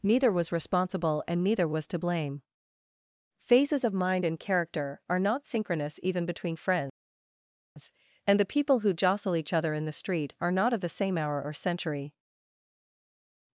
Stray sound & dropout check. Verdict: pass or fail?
pass